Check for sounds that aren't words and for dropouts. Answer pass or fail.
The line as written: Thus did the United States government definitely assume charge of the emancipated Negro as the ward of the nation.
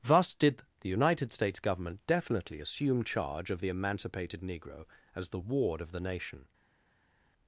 pass